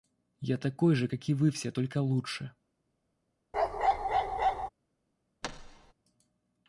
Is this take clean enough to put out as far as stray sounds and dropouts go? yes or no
no